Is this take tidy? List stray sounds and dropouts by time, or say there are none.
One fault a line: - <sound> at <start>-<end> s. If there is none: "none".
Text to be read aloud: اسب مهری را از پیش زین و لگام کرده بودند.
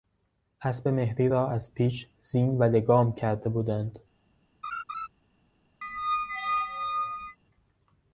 - laugh at 4.6-5.1 s
- squeak at 5.8-7.4 s